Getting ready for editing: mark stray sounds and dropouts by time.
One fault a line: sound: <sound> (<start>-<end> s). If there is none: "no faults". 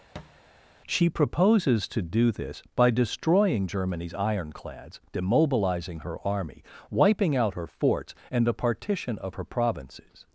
sound: thud (0.1-0.4 s)